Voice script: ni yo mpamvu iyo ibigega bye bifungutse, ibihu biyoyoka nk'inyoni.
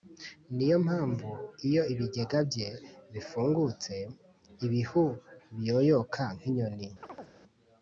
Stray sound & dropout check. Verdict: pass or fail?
fail